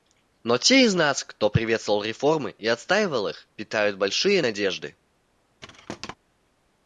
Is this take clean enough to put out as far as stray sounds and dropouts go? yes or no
no